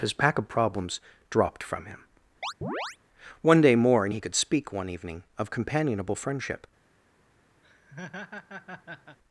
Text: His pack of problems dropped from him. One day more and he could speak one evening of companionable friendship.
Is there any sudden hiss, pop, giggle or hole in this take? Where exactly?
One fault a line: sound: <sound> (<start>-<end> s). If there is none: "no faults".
sound: chirp (2.4-3.0 s)
sound: laugh (7.6-9.2 s)